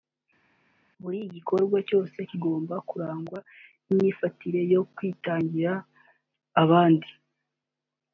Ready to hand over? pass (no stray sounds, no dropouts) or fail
pass